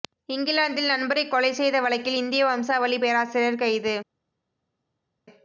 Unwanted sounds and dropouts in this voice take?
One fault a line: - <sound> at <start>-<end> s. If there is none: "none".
none